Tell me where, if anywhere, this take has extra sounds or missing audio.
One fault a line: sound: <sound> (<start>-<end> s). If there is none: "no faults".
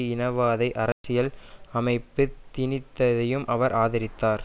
sound: dropout (0.9-1.0 s)